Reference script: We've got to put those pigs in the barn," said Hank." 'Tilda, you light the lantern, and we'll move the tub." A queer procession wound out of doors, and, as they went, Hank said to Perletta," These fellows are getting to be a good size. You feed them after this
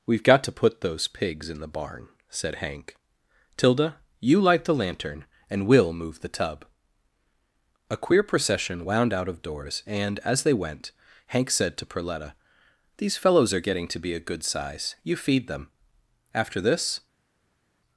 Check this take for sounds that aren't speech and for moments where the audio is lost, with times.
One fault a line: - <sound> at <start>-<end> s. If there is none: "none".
none